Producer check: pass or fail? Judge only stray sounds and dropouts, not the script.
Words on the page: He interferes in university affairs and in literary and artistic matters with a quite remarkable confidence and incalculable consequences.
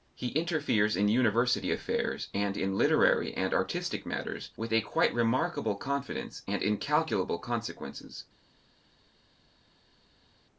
pass